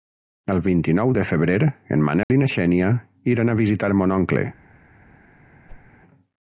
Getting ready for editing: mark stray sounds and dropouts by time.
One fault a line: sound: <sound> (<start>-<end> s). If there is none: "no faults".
sound: dropout (2.2-2.3 s)
sound: whoosh (5.7-5.9 s)